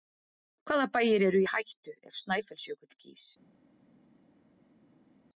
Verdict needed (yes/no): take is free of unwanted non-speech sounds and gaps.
yes